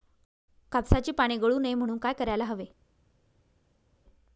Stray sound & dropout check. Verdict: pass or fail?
pass